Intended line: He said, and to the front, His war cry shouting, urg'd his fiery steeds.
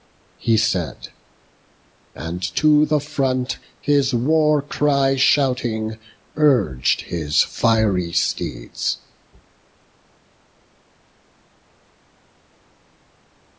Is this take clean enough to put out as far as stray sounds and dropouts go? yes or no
yes